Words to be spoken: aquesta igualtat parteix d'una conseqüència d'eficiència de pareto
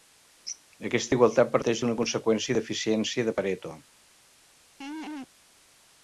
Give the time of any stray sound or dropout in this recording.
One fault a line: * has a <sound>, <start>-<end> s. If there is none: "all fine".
* has a laugh, 4.8-5.3 s